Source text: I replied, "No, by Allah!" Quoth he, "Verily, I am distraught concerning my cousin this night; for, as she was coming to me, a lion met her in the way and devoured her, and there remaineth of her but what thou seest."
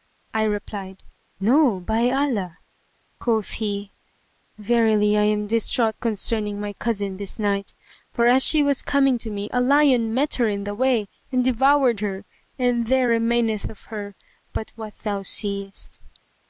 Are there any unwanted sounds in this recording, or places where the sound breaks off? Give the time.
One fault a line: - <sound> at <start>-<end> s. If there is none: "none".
none